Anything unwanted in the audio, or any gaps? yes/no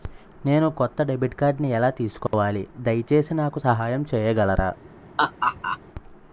yes